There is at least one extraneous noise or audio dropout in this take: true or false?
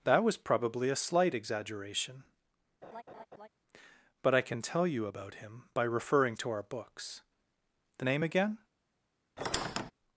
true